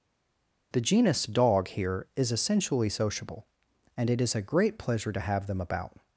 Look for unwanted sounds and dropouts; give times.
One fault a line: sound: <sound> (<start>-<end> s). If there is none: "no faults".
no faults